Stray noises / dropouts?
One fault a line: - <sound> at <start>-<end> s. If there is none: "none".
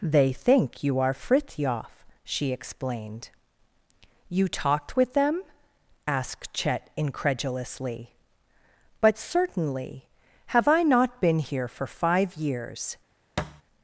- thud at 13.4-13.6 s